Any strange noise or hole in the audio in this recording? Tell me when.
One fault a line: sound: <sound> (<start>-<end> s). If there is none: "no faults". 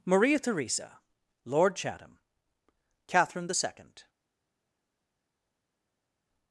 no faults